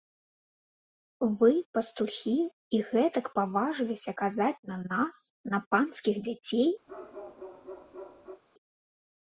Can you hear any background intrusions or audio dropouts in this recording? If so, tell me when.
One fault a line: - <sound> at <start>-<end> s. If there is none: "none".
- bark at 6.9-8.4 s